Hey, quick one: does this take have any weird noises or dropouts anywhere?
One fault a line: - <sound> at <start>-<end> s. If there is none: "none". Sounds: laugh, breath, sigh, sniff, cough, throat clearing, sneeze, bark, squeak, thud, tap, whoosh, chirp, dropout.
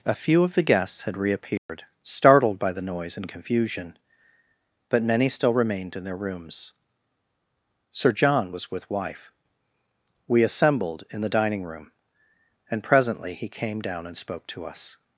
- dropout at 1.6-1.7 s